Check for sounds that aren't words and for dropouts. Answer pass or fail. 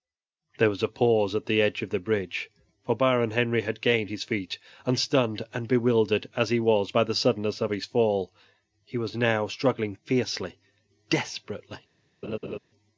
fail